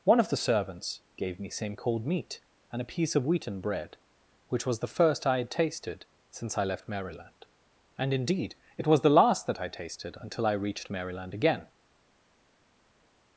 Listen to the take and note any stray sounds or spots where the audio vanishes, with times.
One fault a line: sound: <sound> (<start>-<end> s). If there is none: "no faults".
no faults